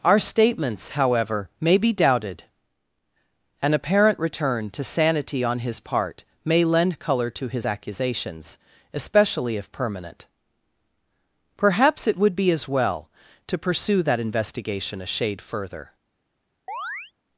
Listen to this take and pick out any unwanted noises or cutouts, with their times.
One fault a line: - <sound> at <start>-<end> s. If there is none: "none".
- chirp at 16.7-17.1 s